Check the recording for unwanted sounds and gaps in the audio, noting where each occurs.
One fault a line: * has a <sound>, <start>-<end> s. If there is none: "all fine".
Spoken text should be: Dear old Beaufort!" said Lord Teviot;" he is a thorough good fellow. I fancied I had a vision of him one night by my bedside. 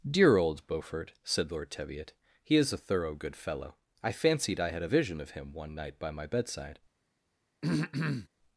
* has a throat clearing, 7.6-8.3 s